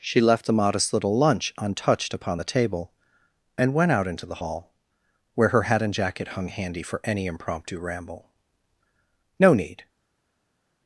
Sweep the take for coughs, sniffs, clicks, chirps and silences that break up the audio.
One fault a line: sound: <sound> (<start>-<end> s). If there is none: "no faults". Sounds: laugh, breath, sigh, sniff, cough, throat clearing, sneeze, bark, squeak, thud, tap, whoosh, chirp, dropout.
no faults